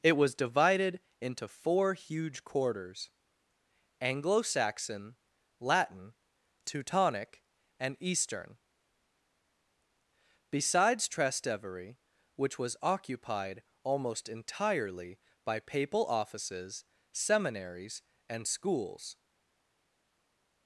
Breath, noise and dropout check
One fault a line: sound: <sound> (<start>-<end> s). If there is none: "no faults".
no faults